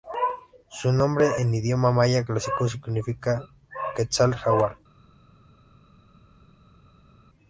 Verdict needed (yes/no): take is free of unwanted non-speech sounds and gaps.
yes